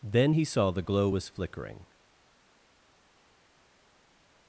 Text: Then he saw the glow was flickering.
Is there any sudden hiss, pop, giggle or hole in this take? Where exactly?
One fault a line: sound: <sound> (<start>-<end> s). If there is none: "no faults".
no faults